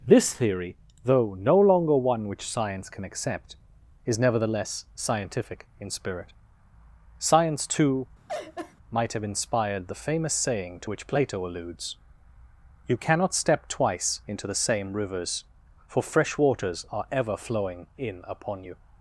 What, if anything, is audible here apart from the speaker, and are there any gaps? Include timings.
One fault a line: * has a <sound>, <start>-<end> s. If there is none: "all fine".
* has a laugh, 8.3-8.7 s